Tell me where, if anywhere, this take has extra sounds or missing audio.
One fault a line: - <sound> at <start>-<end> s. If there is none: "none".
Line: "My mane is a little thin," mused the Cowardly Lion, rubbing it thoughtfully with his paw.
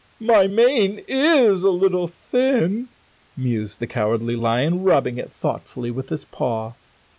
none